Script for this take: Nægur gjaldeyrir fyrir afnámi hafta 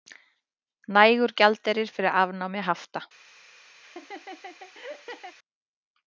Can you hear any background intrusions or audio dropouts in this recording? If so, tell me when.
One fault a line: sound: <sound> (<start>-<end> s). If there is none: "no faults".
sound: laugh (3.8-5.4 s)